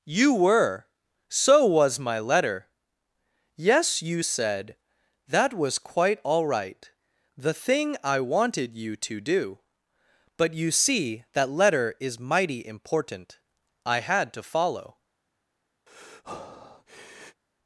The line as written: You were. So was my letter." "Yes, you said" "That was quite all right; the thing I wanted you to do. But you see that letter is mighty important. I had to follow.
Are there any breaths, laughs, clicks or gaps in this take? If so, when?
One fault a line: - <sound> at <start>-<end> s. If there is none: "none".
- breath at 15.9-17.4 s